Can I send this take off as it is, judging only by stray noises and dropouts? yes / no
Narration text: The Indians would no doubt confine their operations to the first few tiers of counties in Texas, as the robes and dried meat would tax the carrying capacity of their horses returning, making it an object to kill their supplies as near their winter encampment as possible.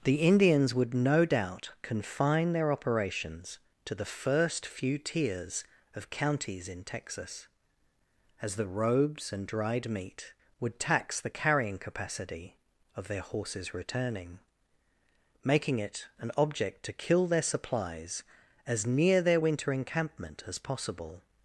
yes